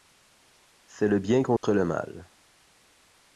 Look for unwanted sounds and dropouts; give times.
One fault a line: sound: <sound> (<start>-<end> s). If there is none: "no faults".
sound: dropout (1.6-1.6 s)